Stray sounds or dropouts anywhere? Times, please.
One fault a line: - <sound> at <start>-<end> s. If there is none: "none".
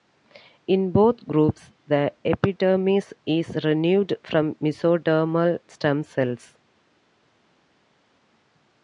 none